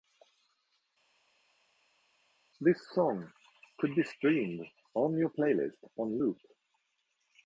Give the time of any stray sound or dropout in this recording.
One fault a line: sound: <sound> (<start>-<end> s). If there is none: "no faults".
no faults